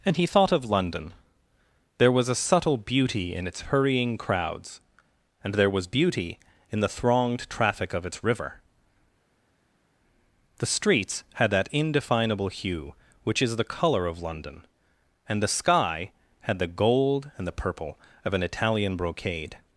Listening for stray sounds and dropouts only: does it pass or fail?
pass